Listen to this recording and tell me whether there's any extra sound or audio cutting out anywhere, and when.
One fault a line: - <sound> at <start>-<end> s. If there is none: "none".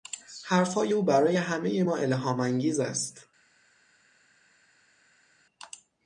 none